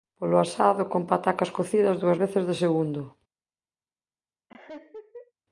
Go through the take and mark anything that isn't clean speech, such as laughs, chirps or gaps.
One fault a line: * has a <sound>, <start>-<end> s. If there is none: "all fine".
* has a laugh, 4.5-5.3 s